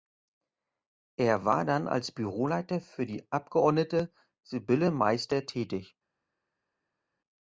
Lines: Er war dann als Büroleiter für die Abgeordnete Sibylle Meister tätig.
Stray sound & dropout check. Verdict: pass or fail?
pass